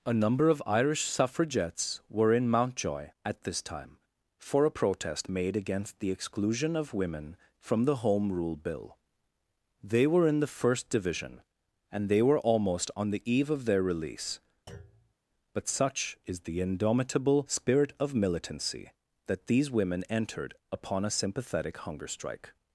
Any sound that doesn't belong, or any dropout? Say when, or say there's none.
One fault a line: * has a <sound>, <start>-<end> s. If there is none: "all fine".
* has a thud, 14.7-15.1 s